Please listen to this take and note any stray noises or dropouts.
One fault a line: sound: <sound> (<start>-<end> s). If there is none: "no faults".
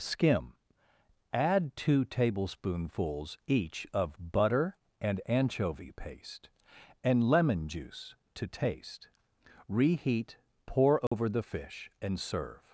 sound: dropout (11.1-11.1 s)